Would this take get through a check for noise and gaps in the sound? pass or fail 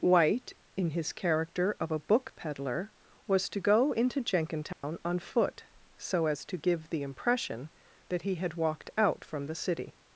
fail